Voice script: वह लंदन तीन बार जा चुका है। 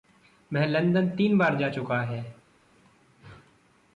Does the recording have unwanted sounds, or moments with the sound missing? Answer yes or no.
no